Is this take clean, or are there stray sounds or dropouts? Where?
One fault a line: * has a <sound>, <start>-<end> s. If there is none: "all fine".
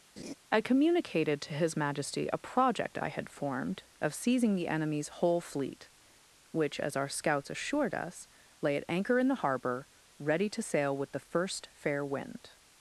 * has a laugh, 0.2-0.3 s